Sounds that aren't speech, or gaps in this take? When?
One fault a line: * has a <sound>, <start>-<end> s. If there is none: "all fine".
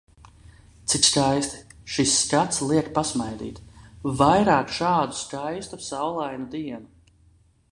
all fine